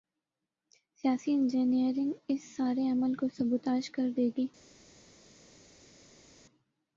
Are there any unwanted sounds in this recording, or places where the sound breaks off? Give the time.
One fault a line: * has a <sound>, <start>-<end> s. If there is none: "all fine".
all fine